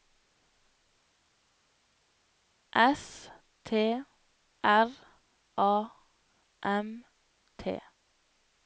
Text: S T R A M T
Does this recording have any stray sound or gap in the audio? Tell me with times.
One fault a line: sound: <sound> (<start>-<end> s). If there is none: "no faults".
no faults